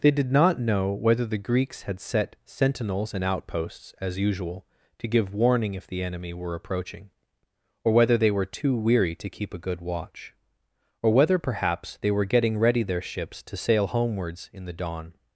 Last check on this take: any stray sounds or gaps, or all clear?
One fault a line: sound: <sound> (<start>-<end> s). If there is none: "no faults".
no faults